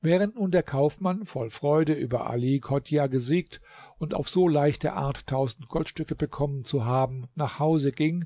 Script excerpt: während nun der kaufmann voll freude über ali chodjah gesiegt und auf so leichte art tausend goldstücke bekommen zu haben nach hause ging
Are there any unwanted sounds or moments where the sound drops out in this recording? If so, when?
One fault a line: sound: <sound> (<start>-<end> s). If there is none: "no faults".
no faults